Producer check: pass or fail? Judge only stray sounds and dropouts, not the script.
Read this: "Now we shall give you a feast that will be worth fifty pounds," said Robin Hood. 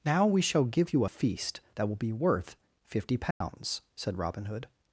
fail